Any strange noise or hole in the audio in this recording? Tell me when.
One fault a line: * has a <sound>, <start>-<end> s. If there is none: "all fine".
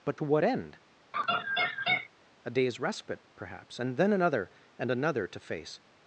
* has a laugh, 1.1-2.1 s